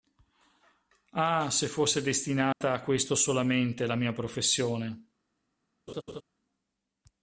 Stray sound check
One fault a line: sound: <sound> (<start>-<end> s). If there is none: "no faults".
sound: dropout (2.5-2.6 s)
sound: laugh (5.9-6.2 s)